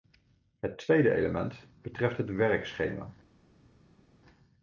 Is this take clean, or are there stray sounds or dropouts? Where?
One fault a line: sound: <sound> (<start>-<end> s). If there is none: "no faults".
no faults